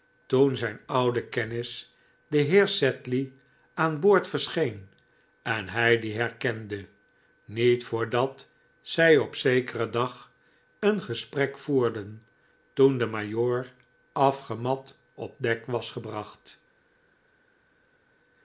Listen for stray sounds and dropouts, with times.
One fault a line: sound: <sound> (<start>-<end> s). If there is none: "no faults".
no faults